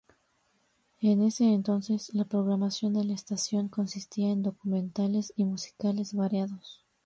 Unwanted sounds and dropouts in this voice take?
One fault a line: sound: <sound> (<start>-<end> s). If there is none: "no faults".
no faults